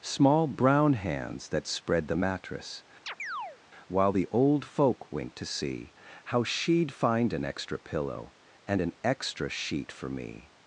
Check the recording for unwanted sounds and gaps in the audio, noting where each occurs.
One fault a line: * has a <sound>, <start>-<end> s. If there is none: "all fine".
* has a chirp, 3.1-3.6 s